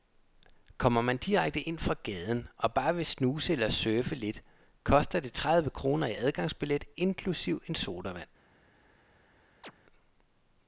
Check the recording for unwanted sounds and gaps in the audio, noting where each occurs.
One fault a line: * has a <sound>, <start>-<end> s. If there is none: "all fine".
* has a chirp, 9.6-9.7 s